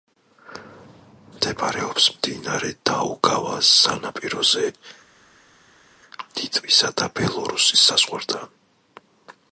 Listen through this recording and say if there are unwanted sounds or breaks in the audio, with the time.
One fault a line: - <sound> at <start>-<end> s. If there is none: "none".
none